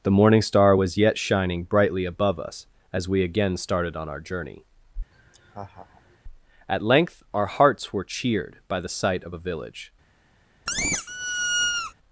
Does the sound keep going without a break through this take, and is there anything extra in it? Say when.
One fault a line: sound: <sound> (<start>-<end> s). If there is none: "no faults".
sound: laugh (5.1-6.2 s)
sound: squeak (10.7-11.9 s)